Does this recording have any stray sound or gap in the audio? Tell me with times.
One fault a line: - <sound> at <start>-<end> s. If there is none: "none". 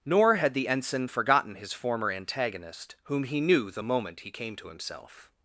none